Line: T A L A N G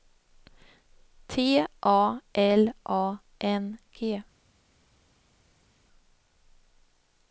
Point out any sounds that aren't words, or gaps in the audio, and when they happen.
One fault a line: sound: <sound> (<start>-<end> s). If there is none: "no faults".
no faults